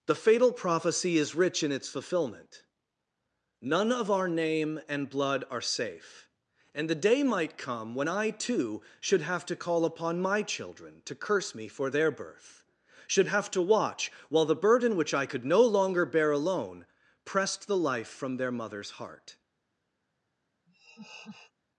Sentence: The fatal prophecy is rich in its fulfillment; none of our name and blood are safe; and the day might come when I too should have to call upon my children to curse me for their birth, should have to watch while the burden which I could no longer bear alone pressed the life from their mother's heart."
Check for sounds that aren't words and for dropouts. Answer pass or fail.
fail